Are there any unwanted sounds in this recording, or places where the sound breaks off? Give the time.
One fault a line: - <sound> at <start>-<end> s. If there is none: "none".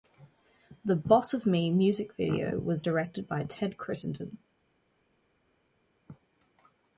none